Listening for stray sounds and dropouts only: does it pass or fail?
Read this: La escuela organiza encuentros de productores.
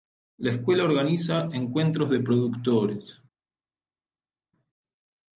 pass